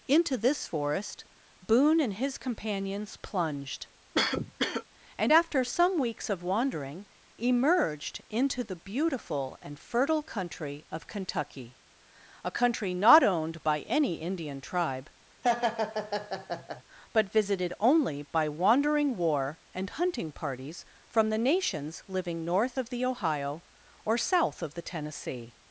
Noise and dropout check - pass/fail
fail